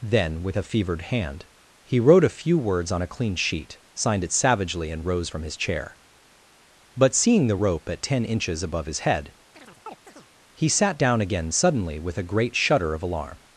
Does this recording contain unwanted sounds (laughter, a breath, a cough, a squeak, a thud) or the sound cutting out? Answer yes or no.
yes